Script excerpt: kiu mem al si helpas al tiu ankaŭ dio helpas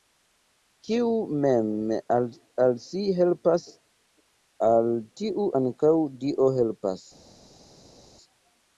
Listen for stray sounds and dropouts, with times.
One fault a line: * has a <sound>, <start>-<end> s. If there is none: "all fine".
all fine